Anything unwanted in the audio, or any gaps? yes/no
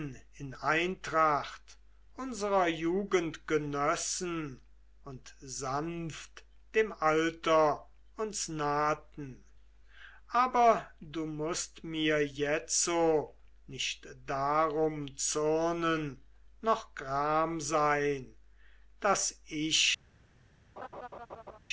yes